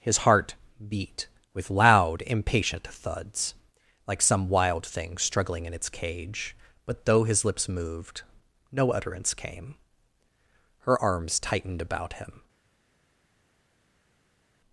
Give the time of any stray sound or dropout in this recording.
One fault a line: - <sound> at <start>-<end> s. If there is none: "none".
none